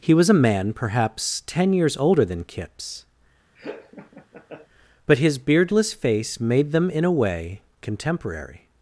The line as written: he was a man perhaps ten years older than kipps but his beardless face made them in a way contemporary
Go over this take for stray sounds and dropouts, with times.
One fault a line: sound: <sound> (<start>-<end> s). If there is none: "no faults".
sound: laugh (3.5-4.7 s)